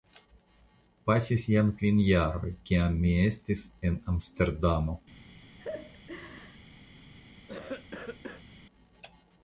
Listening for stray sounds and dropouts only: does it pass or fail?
fail